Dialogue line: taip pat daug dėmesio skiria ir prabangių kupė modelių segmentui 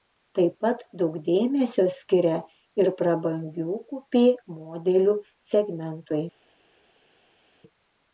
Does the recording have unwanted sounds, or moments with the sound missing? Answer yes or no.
no